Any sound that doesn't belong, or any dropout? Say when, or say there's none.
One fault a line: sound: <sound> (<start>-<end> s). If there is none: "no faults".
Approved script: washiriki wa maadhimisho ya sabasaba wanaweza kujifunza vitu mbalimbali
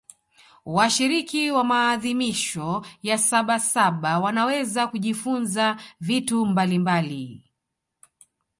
no faults